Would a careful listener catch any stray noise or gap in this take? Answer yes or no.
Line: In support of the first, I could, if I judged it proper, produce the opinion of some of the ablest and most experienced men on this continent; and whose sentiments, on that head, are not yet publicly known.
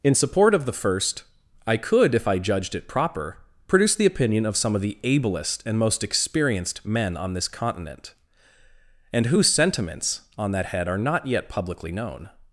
no